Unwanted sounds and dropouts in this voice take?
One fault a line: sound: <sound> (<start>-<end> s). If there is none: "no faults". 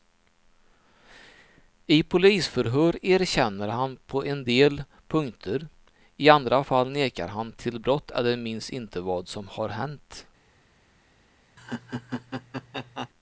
sound: laugh (11.6-13.1 s)